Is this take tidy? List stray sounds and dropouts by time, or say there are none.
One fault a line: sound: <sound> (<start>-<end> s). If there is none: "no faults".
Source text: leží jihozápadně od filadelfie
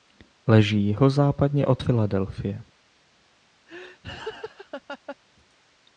sound: laugh (3.7-5.2 s)